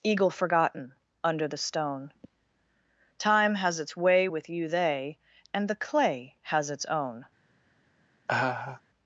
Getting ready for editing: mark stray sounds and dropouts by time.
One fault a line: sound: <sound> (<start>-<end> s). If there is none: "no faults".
sound: laugh (8.3-8.8 s)